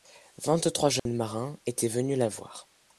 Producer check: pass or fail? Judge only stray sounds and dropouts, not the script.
fail